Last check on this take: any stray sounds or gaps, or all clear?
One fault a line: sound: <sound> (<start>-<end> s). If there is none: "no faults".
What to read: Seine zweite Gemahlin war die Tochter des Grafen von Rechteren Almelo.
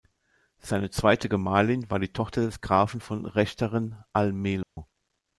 sound: dropout (4.6-4.8 s)